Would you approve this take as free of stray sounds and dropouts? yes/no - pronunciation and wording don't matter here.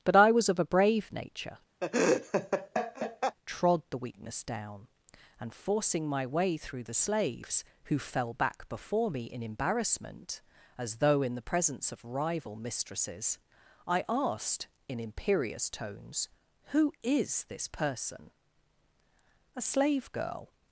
no